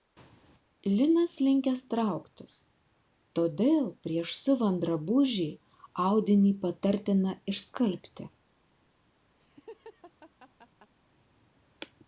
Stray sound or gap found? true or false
true